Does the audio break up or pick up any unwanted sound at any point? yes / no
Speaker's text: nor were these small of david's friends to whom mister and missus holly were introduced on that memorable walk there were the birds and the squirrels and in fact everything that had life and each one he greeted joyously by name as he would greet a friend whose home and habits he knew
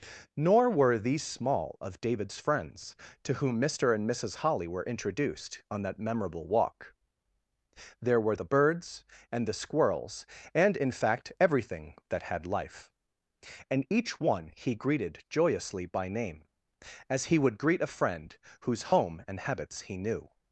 no